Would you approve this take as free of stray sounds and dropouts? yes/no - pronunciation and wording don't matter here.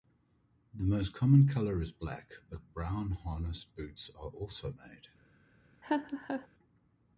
no